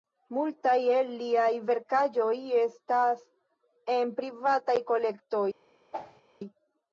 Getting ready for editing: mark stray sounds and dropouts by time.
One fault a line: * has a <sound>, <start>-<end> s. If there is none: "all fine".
* has a whoosh, 5.9-6.2 s